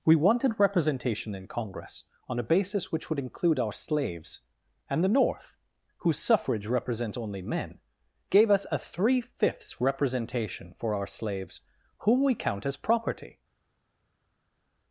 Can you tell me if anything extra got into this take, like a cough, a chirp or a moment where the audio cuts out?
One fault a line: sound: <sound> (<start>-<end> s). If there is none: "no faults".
no faults